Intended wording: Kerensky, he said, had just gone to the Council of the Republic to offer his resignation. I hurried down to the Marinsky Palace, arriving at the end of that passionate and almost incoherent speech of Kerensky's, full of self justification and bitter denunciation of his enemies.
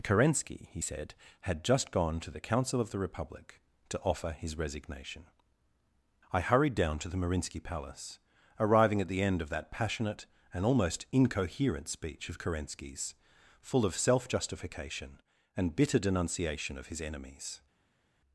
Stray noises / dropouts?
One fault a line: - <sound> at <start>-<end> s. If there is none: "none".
none